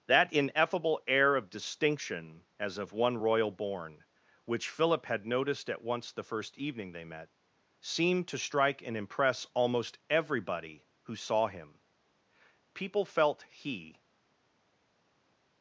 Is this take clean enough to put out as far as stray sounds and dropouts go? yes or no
yes